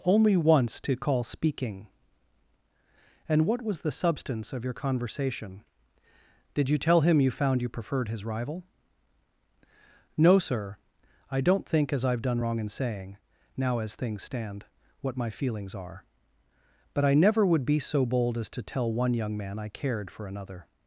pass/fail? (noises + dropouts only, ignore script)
pass